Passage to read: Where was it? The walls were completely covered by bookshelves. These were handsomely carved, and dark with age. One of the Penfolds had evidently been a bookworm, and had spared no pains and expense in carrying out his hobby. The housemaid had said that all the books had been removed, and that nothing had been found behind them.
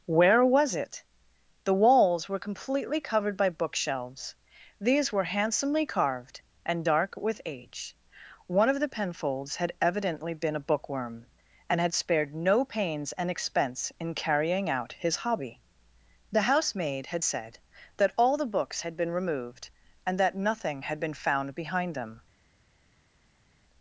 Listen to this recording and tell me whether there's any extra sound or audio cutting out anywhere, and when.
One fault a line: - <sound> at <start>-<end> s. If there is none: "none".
none